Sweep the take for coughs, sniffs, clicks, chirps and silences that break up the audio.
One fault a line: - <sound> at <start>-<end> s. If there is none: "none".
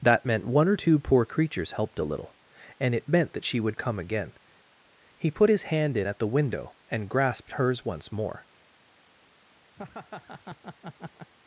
- laugh at 9.8-11.3 s